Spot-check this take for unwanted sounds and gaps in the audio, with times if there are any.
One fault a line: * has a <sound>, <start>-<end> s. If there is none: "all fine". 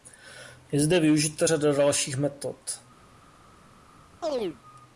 * has a chirp, 4.2-4.6 s